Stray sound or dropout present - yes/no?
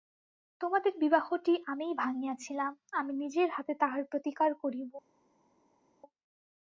no